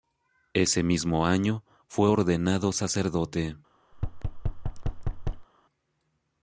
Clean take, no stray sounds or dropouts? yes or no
no